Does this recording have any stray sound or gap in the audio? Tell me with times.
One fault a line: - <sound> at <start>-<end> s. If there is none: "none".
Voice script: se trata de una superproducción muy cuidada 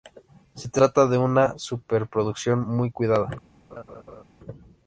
- laugh at 3.7-4.2 s